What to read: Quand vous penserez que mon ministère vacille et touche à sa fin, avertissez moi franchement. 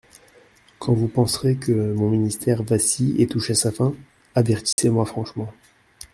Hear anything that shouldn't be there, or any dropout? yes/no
yes